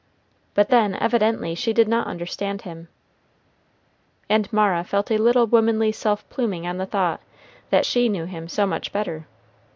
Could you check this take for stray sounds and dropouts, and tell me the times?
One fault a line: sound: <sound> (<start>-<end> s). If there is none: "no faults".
no faults